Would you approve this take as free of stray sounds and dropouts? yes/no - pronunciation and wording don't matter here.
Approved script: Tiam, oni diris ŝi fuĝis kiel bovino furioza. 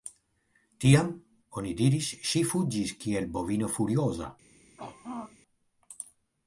no